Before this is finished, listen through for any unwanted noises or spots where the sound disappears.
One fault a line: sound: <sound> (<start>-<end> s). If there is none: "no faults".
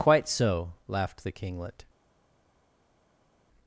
no faults